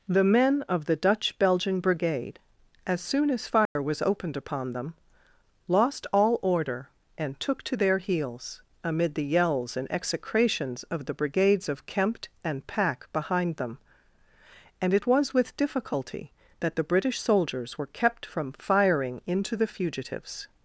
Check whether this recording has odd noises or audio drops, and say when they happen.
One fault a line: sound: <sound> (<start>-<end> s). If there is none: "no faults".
sound: dropout (3.7-3.8 s)